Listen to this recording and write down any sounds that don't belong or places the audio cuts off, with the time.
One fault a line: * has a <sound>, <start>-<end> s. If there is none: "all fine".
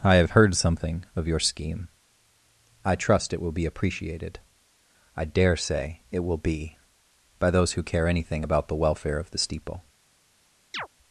* has a chirp, 10.7-10.9 s